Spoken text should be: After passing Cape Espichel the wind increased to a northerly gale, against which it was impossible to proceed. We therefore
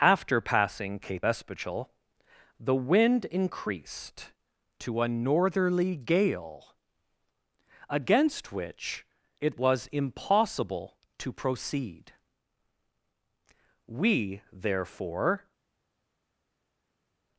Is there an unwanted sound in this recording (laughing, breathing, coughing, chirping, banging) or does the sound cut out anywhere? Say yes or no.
no